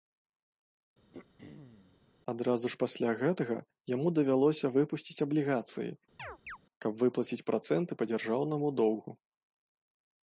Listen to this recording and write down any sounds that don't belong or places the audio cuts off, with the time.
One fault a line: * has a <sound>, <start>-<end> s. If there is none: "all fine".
* has a throat clearing, 1.1-2.0 s
* has a chirp, 6.2-6.6 s